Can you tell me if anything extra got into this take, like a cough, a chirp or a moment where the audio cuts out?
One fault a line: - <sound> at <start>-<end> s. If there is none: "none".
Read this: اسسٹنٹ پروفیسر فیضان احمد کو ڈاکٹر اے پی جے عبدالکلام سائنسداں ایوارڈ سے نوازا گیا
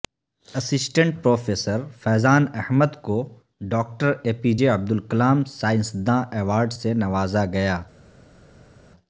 none